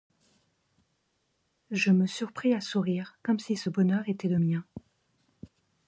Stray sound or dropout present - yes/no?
no